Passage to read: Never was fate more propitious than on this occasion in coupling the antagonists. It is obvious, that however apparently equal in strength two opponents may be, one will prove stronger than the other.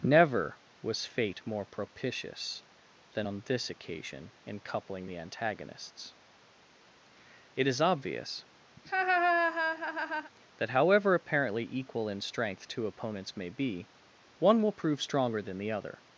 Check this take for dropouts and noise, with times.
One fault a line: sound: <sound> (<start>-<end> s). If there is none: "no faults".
sound: laugh (8.8-10.3 s)